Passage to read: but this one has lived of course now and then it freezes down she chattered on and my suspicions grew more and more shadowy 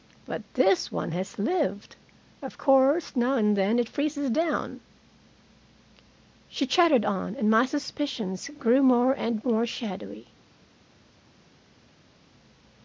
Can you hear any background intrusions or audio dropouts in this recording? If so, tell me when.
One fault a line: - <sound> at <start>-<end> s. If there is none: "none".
none